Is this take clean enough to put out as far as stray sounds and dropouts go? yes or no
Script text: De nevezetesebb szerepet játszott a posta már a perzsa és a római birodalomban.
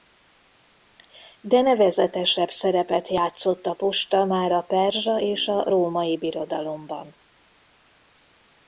yes